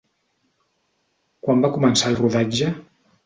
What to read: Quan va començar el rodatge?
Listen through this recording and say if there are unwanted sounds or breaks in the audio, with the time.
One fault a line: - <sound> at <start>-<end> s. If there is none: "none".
none